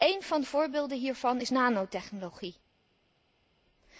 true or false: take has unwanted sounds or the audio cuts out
false